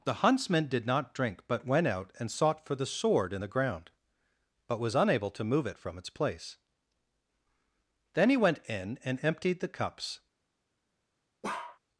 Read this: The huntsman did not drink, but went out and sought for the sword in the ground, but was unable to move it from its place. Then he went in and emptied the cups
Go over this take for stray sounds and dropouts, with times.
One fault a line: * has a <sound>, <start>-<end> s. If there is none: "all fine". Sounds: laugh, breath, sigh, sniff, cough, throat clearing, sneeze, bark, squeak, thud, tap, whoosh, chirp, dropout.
* has a bark, 11.4-11.8 s